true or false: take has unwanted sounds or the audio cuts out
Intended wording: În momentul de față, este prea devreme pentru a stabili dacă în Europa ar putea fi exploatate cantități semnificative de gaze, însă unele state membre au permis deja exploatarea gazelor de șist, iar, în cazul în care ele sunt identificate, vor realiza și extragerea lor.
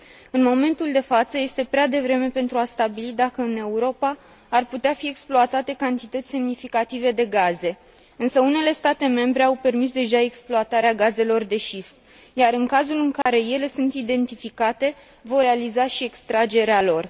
true